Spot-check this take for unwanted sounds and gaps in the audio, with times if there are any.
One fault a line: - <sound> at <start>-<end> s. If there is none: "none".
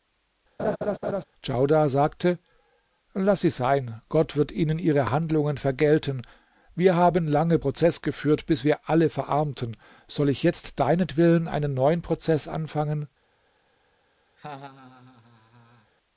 - laugh at 0.6-1.2 s
- laugh at 14.4-15.9 s